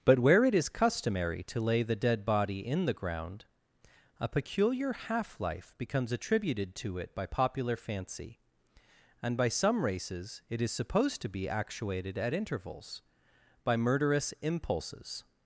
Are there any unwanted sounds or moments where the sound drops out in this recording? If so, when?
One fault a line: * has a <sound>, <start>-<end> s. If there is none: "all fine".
all fine